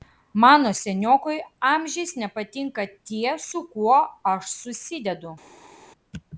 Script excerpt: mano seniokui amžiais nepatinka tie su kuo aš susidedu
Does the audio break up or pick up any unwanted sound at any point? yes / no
no